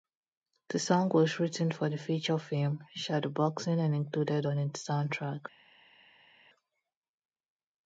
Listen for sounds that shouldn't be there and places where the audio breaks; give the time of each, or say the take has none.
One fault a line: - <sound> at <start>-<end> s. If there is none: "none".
none